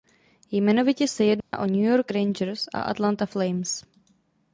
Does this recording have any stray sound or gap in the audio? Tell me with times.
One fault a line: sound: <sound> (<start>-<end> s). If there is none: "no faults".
sound: dropout (1.4-1.5 s)